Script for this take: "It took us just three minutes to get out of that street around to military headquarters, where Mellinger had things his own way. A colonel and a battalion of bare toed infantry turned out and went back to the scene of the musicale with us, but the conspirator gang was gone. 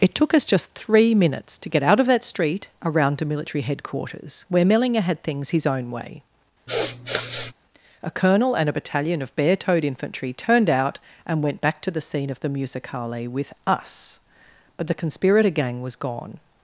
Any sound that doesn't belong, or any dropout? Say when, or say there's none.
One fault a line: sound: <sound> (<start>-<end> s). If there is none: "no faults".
sound: sniff (6.7-7.5 s)